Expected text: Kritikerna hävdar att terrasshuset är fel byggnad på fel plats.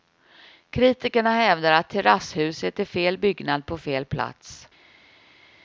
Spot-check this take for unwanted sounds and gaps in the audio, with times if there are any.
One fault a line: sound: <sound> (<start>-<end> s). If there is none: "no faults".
no faults